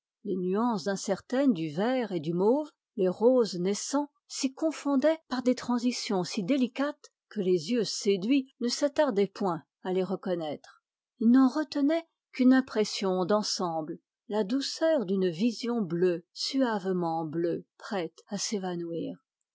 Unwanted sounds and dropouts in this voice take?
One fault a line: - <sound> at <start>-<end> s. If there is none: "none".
none